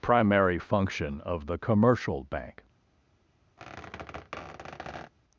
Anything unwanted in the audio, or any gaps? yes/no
yes